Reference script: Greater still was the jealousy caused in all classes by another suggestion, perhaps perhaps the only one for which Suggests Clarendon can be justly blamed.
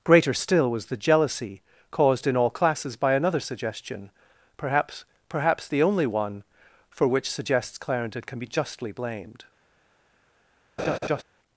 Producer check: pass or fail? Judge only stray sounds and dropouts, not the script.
fail